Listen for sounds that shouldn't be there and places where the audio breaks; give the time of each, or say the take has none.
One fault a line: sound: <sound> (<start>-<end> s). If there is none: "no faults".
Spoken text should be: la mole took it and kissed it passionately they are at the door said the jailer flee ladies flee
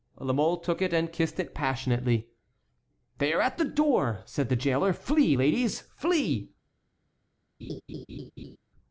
sound: laugh (7.6-8.6 s)